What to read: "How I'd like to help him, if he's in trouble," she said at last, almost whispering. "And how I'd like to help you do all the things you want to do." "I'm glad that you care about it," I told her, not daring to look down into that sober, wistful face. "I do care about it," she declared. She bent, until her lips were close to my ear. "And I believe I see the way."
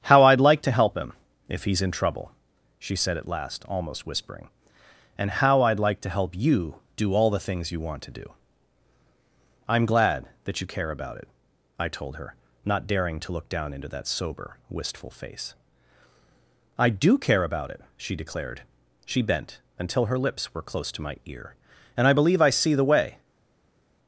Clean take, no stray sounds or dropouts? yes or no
yes